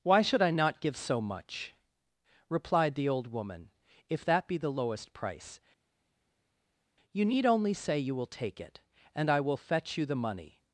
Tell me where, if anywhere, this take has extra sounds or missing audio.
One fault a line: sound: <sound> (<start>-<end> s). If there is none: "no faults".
no faults